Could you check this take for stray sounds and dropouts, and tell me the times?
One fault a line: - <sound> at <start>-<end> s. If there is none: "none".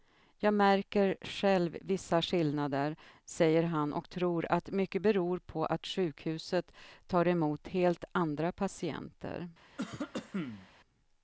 - cough at 9.8-10.7 s